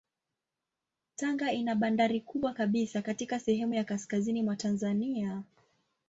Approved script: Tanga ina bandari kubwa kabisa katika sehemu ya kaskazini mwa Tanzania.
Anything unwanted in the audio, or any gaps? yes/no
no